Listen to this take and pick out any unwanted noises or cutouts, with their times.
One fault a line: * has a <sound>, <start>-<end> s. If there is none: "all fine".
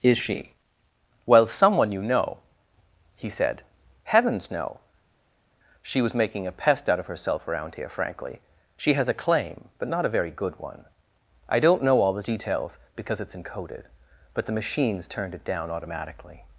all fine